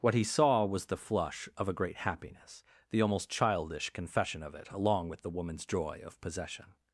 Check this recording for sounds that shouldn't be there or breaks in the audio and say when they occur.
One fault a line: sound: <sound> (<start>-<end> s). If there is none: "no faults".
no faults